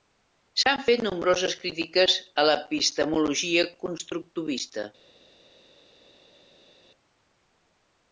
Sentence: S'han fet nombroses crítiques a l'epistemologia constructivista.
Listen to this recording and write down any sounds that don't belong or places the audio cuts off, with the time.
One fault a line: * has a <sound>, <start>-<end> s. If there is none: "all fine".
all fine